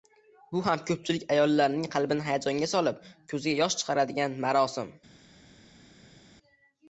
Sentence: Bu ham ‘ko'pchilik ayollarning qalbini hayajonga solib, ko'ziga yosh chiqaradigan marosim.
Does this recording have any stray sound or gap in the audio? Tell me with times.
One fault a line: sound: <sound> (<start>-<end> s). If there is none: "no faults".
no faults